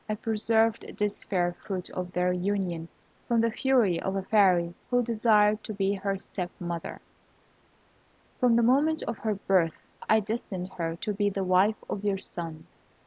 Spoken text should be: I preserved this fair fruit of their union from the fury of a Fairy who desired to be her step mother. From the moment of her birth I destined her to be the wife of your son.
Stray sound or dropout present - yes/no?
no